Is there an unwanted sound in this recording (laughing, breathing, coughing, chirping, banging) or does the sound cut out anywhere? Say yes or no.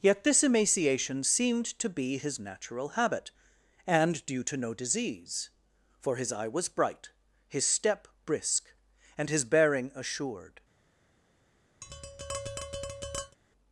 yes